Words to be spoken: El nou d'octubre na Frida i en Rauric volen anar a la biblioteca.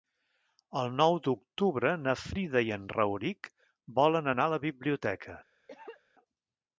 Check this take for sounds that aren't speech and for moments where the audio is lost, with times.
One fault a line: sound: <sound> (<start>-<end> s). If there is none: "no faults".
sound: cough (5.7-6.0 s)